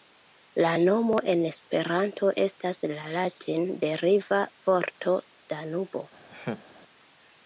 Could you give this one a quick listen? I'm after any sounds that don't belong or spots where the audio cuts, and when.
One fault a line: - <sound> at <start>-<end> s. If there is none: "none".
- laugh at 6.3-6.6 s